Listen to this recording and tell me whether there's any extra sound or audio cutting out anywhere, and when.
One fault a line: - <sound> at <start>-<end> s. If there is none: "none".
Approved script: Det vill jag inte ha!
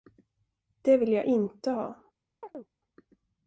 - chirp at 2.4-2.7 s